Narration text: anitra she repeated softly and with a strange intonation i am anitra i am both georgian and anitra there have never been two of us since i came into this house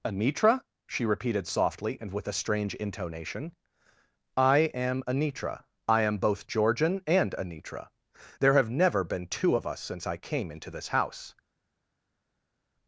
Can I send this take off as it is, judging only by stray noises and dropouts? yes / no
yes